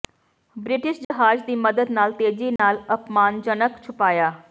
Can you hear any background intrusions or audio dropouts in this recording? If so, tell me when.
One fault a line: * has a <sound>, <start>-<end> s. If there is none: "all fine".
* has a dropout, 1.0-1.1 s
* has a dropout, 2.6-2.6 s